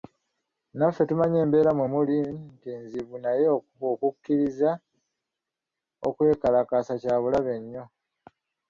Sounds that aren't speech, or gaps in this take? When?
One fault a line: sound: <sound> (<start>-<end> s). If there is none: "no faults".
no faults